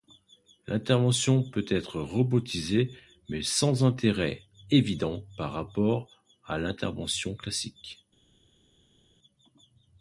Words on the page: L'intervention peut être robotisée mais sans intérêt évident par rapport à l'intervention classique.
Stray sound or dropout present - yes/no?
no